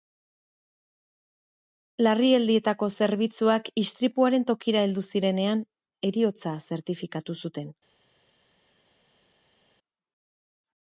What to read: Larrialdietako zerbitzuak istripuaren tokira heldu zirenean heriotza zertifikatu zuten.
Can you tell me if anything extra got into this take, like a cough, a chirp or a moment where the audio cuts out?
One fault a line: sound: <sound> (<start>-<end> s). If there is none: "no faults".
no faults